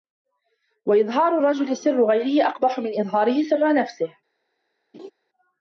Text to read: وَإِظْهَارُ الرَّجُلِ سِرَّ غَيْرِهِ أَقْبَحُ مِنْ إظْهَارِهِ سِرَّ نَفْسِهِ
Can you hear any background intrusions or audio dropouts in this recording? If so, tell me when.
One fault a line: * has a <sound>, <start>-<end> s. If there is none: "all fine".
* has a laugh, 4.9-5.1 s